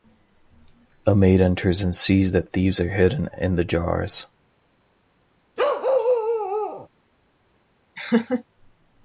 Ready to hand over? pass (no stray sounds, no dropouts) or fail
fail